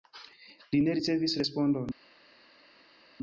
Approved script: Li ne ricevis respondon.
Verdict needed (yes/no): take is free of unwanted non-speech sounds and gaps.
yes